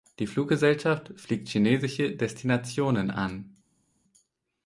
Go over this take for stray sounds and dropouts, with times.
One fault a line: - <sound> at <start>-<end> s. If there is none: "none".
none